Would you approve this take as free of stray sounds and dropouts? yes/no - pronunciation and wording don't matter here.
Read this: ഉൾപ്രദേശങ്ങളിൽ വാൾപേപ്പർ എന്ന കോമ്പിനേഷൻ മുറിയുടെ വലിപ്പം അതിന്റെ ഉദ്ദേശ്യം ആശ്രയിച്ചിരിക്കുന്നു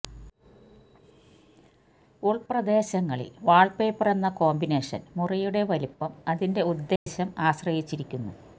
no